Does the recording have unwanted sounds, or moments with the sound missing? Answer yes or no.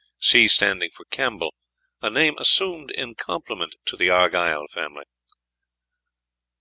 no